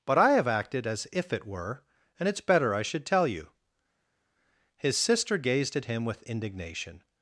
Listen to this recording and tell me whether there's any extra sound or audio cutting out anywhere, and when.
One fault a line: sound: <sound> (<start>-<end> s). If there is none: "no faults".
no faults